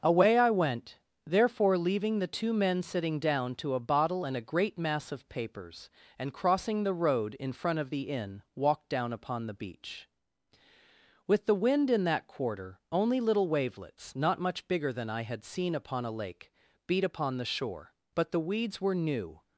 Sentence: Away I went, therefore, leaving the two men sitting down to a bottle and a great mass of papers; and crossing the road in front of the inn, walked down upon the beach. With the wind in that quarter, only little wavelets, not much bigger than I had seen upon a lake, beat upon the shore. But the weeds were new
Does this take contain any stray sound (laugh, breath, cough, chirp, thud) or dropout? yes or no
no